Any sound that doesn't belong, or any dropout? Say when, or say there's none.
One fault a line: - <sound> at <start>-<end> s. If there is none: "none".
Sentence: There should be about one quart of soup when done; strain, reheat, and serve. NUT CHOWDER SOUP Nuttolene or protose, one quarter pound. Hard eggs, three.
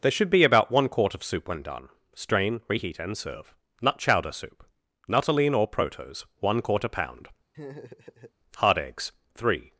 - laugh at 7.5-8.3 s